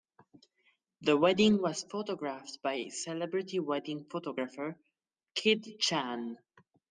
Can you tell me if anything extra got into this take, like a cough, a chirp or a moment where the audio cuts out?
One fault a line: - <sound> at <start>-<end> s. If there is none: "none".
none